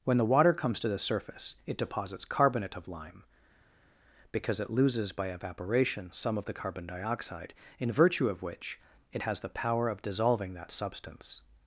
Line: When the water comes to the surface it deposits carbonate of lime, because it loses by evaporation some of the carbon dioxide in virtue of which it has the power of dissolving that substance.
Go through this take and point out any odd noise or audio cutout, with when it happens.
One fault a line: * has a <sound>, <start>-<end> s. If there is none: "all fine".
all fine